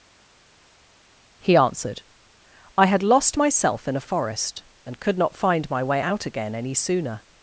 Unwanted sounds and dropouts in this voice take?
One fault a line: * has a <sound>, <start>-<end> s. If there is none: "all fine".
all fine